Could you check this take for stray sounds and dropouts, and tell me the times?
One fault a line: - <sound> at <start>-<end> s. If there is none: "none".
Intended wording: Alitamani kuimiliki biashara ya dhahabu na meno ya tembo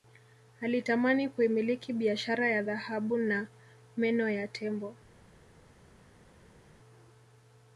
none